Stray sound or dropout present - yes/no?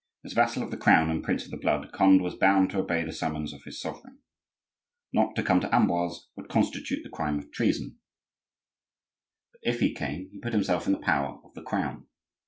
no